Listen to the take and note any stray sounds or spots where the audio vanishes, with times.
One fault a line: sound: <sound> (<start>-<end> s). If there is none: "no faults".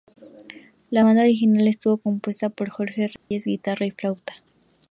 sound: dropout (3.2-3.3 s)